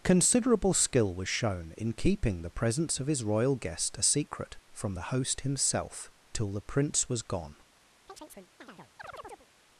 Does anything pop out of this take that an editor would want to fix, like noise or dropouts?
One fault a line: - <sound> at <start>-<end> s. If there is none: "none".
- chirp at 8.1-9.5 s